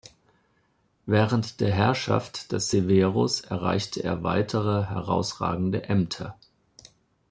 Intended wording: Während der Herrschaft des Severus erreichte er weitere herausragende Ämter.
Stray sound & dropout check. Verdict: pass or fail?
pass